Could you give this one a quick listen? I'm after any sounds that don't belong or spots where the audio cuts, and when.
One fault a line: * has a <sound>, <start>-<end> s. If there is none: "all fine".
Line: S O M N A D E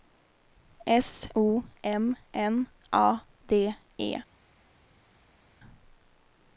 all fine